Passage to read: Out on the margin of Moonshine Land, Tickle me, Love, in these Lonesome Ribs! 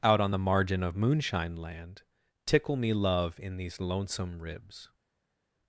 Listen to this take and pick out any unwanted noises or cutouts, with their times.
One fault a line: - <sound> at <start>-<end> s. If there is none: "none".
none